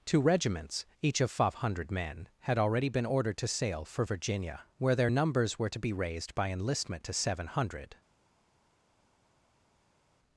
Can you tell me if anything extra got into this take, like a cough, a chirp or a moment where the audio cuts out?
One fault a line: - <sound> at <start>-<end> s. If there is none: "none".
none